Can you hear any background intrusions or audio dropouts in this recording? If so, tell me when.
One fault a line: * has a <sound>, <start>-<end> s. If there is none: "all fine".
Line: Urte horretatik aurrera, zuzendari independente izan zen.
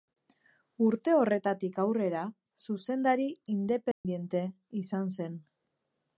* has a dropout, 3.9-4.0 s